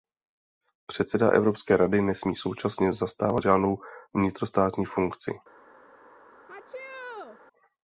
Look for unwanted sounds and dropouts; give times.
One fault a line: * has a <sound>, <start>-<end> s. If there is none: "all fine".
* has a sneeze, 6.5-7.4 s